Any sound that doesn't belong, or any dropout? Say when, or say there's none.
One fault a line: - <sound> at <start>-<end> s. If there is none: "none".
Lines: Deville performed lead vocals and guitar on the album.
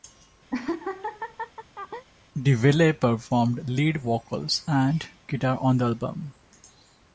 - laugh at 0.5-2.1 s